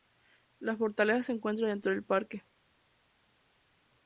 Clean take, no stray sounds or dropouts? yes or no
yes